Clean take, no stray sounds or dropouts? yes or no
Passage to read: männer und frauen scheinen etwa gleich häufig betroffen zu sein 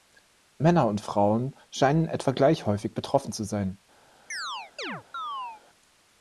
no